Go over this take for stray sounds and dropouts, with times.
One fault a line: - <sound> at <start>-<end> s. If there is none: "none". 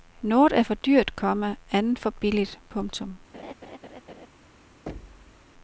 - laugh at 3.3-4.3 s
- thud at 4.9-5.5 s